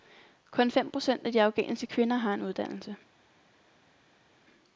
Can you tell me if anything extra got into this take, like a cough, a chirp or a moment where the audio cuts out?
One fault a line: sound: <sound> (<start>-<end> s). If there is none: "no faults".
no faults